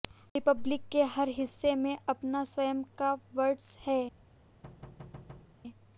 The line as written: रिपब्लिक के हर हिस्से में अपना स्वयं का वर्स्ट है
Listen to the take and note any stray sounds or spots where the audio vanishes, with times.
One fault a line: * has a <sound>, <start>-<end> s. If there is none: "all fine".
* has a thud, 4.6-5.6 s